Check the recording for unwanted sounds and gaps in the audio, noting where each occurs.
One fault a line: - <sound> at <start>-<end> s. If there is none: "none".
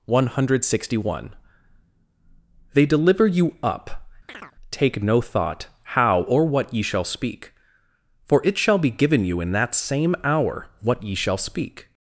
- chirp at 4.3-4.6 s